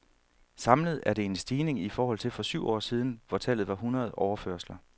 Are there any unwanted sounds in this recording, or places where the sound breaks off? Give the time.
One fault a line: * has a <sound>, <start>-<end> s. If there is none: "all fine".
all fine